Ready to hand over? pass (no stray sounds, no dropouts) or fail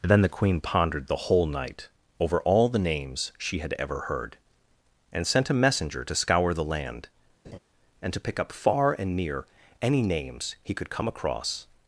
fail